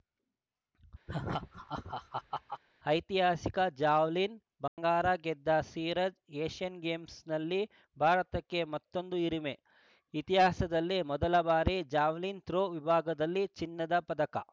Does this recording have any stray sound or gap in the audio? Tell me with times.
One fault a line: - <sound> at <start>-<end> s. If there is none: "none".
- laugh at 1.1-2.6 s
- dropout at 4.7-4.8 s